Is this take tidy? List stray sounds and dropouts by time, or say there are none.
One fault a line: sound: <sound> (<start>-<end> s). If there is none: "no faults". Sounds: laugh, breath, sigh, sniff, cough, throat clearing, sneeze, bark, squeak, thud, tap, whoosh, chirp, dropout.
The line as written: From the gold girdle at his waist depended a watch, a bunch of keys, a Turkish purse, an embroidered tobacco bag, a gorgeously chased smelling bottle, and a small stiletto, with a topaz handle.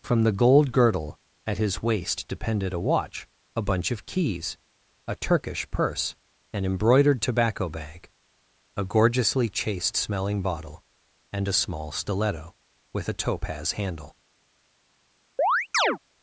sound: chirp (15.4-16.0 s)